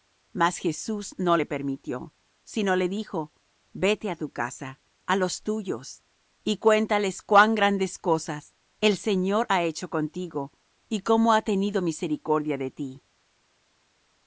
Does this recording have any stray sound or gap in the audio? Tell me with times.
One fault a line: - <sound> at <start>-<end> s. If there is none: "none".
none